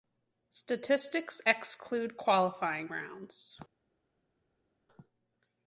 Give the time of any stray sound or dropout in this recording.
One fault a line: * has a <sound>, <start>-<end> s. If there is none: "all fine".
all fine